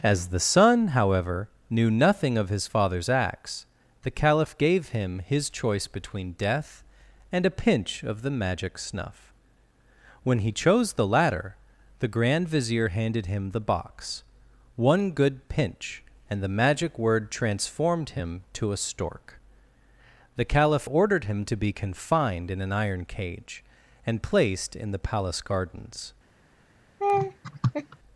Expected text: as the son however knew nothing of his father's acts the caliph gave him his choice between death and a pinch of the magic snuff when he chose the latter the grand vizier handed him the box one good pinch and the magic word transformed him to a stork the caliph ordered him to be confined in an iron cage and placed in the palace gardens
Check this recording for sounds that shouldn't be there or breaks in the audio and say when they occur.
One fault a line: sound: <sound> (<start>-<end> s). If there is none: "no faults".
sound: laugh (27.0-28.0 s)